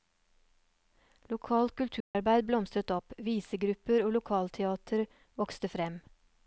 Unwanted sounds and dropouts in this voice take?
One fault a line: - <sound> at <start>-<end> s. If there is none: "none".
- dropout at 2.0-2.1 s